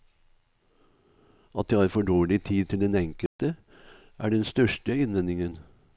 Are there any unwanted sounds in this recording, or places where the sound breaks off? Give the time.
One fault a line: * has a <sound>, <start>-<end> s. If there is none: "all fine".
* has a dropout, 3.3-3.4 s